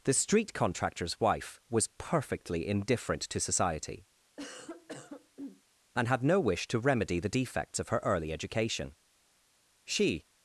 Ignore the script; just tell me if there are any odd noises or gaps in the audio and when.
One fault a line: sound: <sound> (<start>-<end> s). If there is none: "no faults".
sound: cough (4.4-5.6 s)